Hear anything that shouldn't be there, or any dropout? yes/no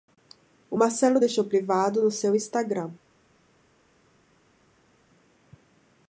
no